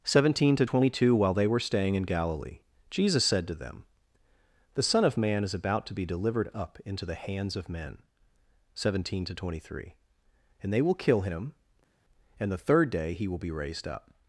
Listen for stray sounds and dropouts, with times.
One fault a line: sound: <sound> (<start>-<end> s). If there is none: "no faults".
no faults